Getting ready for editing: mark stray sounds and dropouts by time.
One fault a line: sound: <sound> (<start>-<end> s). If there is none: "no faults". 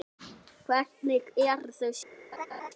sound: laugh (2.3-2.7 s)